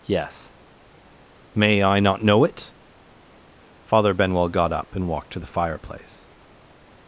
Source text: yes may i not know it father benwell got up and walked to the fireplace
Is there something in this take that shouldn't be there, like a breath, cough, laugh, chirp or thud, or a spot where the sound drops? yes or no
no